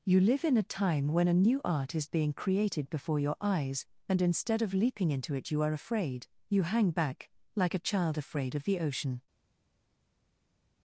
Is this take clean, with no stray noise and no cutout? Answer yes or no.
yes